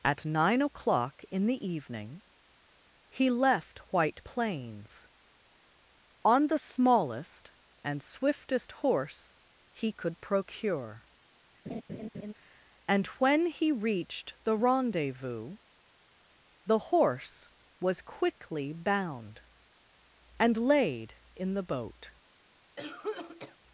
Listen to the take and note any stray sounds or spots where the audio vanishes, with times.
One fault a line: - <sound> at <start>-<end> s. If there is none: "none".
- laugh at 11.7-12.3 s
- cough at 22.8-23.6 s